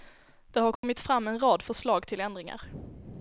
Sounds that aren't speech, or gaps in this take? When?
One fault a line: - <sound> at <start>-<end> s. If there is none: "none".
- dropout at 0.8-0.8 s